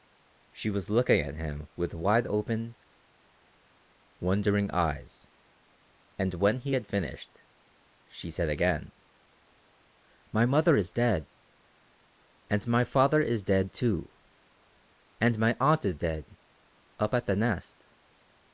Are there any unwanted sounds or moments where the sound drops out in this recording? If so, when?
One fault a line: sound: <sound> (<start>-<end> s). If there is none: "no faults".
no faults